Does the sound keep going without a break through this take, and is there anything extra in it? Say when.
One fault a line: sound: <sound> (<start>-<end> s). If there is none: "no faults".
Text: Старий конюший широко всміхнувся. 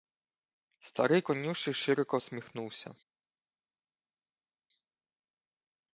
no faults